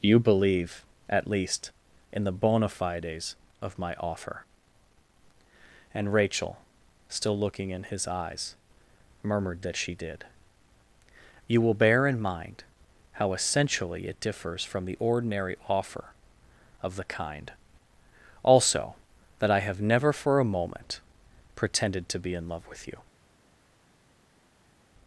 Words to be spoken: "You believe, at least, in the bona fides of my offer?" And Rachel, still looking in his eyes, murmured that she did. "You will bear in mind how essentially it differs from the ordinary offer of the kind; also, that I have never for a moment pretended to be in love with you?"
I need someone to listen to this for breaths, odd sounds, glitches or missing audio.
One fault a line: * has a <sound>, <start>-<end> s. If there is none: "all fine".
all fine